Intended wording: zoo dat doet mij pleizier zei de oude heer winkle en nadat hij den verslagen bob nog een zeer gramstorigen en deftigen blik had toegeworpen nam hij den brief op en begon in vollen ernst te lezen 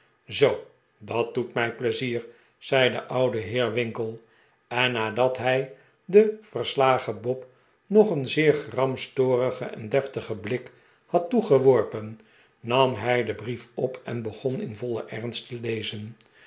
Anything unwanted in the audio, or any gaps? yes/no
no